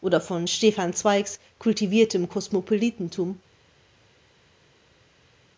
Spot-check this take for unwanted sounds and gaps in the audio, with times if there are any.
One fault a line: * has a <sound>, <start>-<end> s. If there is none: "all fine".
all fine